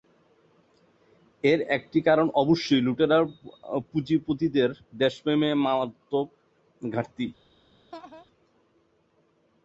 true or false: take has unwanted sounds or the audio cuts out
true